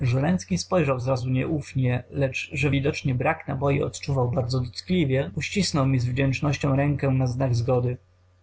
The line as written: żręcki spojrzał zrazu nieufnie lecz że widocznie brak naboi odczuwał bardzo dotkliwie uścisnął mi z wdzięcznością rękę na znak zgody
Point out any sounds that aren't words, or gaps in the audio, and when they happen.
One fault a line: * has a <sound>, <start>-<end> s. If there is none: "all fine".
all fine